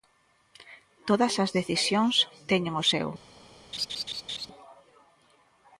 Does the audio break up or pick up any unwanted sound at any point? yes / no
yes